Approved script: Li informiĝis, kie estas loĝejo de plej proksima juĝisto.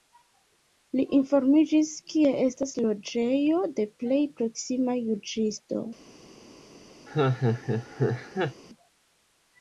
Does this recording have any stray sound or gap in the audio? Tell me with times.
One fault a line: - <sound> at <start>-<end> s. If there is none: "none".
- laugh at 7.1-8.6 s